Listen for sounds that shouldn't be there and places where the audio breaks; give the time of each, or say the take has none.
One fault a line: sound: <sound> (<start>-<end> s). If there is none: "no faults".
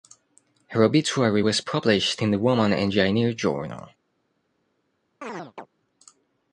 sound: chirp (5.2-5.7 s)